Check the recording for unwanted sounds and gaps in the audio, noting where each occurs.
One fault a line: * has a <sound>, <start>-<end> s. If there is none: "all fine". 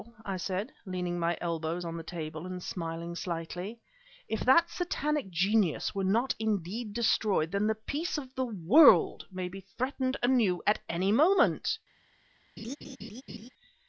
* has a laugh, 12.6-13.5 s